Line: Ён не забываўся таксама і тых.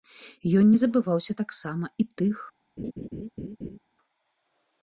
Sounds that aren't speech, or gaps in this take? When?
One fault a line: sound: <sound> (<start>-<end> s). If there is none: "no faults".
sound: laugh (2.8-3.8 s)